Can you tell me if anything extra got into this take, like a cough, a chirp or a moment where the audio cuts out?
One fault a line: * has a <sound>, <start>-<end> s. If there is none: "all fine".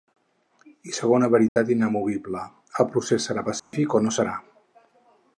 * has a dropout, 1.5-1.6 s
* has a dropout, 3.6-3.7 s